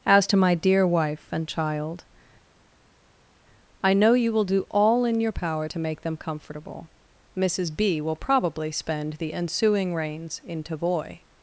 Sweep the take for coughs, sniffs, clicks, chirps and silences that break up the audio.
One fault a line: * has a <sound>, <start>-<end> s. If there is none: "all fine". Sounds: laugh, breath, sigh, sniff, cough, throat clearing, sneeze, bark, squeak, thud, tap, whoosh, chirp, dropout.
all fine